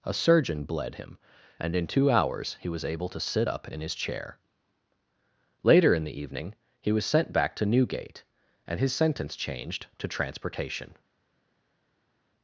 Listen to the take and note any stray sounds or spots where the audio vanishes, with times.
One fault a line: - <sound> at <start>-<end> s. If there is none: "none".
none